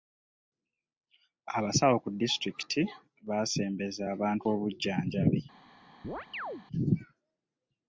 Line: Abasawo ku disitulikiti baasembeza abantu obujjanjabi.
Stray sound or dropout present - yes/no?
yes